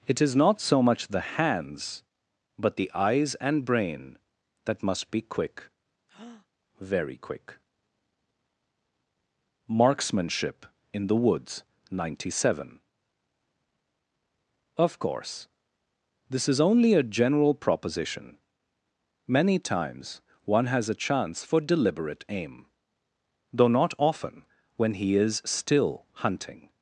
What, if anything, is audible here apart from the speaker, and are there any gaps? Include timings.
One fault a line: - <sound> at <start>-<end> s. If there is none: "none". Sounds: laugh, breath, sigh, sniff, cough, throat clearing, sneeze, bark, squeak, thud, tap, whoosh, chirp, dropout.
- breath at 6.1-6.5 s